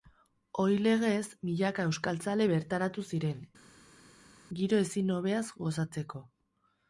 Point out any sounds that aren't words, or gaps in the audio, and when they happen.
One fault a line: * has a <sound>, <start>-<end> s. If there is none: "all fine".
all fine